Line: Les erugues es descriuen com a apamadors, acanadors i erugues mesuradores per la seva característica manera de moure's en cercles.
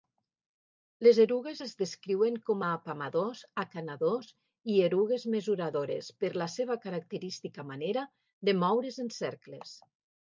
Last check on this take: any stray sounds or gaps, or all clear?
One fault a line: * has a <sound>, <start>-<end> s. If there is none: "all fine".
all fine